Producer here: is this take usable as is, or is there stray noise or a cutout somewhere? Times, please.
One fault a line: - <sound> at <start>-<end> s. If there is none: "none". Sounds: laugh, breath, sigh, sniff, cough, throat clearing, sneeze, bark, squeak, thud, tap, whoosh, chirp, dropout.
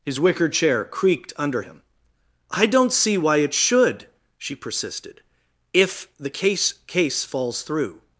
none